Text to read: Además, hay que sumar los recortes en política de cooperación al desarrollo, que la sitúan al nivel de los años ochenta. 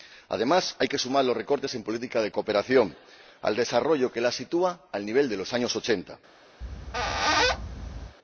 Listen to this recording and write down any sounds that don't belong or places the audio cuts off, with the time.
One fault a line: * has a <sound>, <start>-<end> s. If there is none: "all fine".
* has a squeak, 6.6-8.2 s